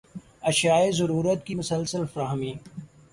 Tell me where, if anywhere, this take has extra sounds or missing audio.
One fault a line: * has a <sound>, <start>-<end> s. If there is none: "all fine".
all fine